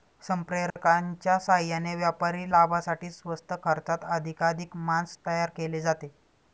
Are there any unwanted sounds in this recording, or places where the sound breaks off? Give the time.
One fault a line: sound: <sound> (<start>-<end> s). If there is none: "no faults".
sound: dropout (0.7-0.8 s)